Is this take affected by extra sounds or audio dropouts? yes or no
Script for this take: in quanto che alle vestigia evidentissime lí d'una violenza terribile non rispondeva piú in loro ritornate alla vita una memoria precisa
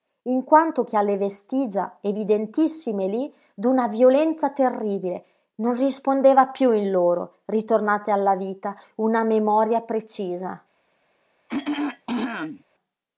yes